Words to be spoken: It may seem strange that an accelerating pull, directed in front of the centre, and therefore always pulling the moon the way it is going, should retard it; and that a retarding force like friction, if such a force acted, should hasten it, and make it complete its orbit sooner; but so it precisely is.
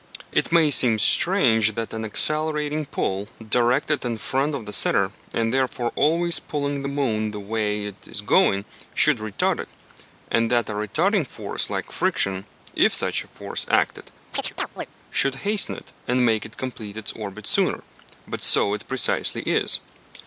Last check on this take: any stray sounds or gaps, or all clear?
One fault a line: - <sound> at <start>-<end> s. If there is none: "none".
- chirp at 14.3-14.9 s